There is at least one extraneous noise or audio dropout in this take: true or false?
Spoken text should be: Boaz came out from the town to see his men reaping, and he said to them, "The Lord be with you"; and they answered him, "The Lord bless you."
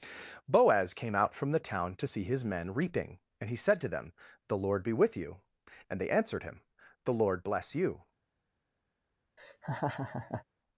true